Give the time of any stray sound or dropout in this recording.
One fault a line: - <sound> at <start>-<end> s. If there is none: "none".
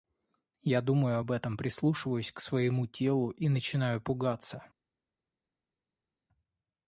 none